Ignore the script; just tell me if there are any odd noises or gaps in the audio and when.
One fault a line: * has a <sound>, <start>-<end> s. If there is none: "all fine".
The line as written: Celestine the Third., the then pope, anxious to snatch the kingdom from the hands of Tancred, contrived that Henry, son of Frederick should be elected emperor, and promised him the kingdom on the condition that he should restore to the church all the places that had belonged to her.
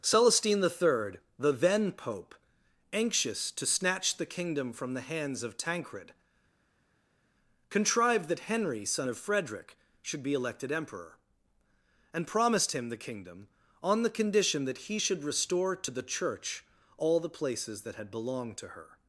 all fine